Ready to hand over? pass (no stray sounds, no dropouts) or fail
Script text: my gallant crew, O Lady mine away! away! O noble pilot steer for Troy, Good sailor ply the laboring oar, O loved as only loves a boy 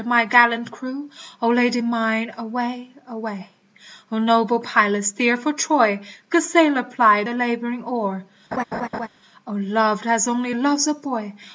fail